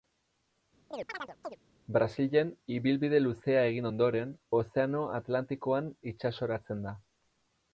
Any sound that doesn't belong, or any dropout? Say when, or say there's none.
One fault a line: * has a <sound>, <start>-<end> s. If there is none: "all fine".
* has a chirp, 0.9-1.6 s